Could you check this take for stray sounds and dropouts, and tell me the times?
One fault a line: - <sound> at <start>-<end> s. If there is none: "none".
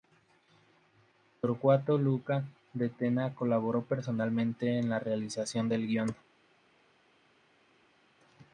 none